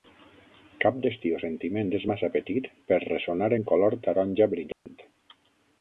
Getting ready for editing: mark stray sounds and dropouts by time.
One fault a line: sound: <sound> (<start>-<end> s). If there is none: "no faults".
sound: dropout (4.7-4.9 s)